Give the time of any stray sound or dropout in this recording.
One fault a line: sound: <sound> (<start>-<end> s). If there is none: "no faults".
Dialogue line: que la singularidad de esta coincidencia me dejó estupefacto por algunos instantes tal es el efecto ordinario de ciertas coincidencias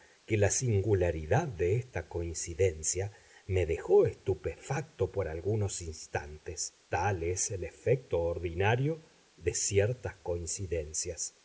no faults